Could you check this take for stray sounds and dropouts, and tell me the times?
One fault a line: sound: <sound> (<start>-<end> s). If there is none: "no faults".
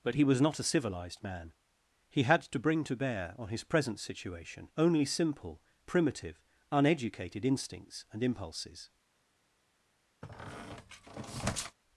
sound: squeak (10.2-11.8 s)